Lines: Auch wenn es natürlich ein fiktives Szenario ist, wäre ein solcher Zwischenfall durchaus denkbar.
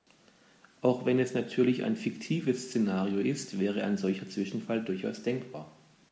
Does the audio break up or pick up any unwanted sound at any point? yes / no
no